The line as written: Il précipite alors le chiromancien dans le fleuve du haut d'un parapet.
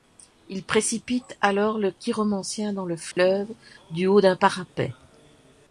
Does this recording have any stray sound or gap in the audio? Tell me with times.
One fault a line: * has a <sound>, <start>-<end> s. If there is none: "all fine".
* has a dropout, 3.1-3.2 s